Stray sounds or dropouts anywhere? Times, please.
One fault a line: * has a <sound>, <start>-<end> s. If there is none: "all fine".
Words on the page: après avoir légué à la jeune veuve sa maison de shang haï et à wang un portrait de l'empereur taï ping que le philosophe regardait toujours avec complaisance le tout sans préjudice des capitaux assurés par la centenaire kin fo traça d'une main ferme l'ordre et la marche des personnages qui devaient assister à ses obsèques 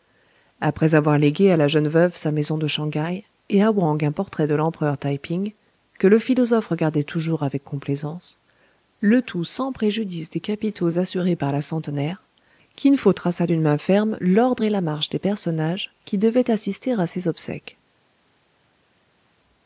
all fine